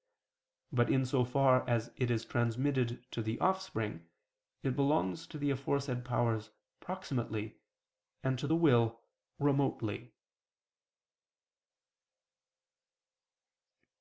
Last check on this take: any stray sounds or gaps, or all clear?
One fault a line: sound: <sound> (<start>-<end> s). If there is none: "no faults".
no faults